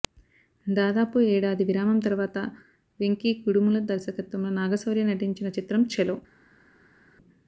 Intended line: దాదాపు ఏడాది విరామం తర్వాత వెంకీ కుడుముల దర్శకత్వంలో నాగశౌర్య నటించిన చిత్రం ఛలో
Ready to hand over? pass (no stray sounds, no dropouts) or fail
pass